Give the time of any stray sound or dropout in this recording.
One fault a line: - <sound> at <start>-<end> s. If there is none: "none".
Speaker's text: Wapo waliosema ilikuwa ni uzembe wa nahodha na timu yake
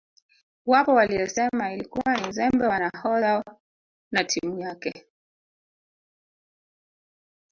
none